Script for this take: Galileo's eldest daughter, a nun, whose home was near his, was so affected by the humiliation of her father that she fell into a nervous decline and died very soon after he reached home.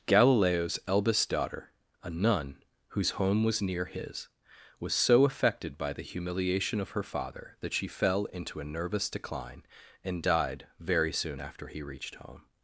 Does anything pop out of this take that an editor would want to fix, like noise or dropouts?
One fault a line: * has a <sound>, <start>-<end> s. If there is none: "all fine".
all fine